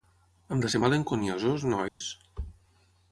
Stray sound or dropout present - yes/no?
yes